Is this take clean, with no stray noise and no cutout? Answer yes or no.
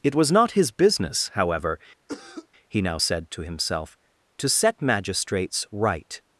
no